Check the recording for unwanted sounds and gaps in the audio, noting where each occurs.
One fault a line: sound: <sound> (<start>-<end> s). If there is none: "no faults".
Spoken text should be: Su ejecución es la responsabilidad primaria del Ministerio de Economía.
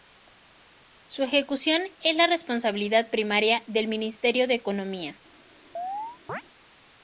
sound: chirp (5.8-6.4 s)